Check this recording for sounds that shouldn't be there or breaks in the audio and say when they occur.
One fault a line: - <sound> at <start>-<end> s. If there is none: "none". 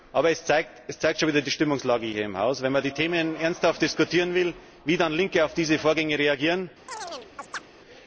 - chirp at 6.9-7.7 s